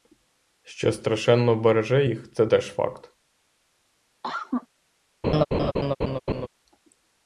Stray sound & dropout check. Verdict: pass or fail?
fail